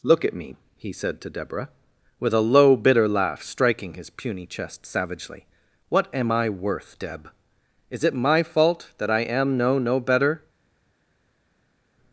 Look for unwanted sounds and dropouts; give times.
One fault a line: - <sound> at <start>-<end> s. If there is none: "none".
none